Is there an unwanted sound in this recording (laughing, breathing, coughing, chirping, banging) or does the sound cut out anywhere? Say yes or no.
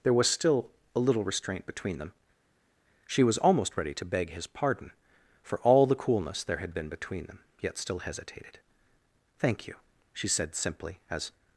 no